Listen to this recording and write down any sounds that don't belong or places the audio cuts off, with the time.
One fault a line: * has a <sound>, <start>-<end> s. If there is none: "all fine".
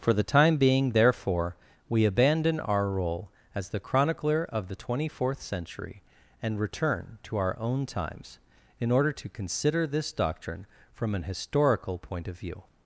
all fine